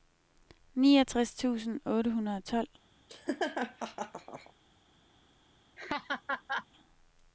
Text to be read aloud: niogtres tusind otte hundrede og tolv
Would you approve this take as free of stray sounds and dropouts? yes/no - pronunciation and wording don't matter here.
no